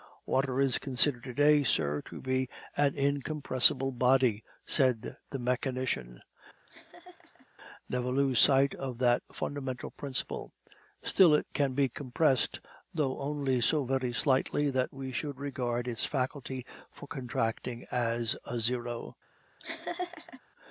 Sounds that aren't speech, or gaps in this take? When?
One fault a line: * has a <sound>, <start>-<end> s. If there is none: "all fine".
* has a laugh, 6.7-7.5 s
* has a laugh, 19.6-20.4 s